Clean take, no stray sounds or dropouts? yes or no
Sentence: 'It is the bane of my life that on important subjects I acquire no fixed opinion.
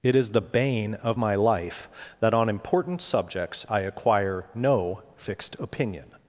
yes